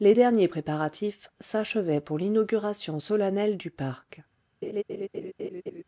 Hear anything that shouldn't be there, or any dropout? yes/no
yes